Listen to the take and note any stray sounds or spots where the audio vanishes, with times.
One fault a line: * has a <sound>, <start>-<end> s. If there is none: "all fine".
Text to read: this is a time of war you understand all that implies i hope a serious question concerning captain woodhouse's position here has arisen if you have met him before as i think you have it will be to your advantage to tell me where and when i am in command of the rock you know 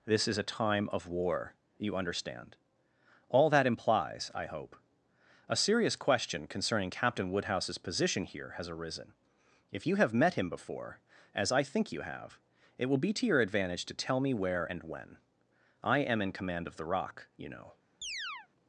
* has a chirp, 18.0-18.5 s